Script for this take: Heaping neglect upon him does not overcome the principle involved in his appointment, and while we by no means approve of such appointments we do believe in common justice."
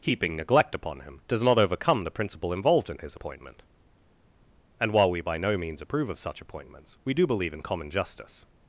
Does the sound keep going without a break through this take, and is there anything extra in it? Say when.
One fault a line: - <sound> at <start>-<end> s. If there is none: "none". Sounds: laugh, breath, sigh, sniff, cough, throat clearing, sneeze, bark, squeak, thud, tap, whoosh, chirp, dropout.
none